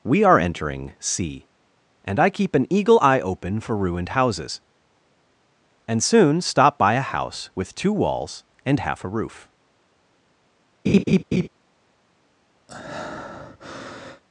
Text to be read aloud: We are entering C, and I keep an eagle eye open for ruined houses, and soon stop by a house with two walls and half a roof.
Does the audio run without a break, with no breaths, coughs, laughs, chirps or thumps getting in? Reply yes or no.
no